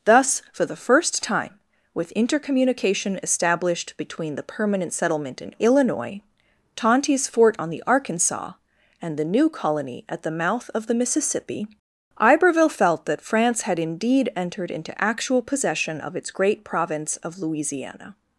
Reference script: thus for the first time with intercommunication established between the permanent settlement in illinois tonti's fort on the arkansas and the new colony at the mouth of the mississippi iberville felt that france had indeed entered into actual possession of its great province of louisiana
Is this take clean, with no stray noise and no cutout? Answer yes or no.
yes